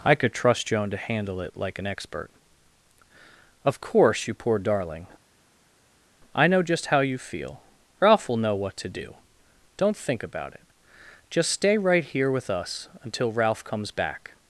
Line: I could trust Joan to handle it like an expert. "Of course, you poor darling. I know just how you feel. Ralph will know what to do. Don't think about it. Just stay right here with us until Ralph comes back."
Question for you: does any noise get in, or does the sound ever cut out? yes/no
no